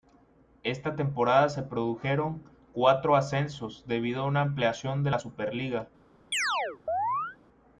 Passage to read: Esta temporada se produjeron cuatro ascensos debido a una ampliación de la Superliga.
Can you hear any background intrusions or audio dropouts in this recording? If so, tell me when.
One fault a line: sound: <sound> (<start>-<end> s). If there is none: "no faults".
sound: chirp (6.3-7.4 s)